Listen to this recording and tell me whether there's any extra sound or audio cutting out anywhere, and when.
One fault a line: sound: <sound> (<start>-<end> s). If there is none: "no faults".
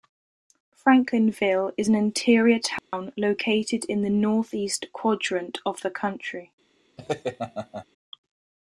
sound: dropout (2.8-2.9 s)
sound: laugh (7.0-7.9 s)